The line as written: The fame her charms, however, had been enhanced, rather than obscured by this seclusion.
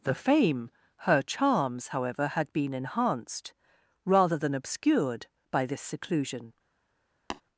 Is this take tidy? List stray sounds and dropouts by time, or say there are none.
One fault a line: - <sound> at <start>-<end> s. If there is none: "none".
- tap at 7.3-7.4 s